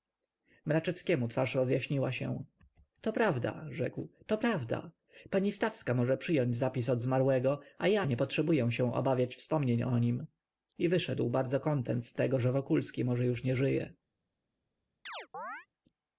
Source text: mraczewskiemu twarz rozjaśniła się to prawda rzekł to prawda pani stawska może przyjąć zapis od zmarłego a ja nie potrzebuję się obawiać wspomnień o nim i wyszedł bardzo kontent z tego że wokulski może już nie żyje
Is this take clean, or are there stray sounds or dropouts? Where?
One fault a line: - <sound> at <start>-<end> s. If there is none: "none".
- chirp at 15.1-15.7 s